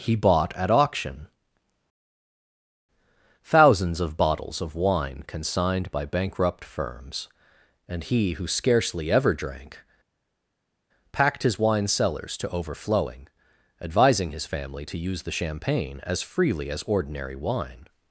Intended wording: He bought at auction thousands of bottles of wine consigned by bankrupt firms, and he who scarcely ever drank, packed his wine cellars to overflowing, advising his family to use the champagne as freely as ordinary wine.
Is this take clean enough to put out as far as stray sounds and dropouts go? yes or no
yes